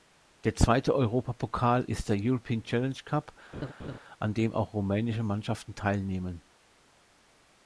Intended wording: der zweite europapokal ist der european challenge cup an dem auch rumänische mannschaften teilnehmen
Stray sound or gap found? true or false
true